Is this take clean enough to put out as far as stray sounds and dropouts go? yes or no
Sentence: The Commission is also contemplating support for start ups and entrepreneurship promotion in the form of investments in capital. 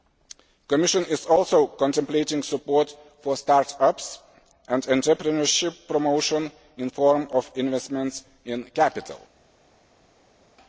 yes